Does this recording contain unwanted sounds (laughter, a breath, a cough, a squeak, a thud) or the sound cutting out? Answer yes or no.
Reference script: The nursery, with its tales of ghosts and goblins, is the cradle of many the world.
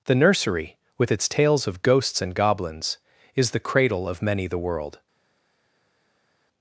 no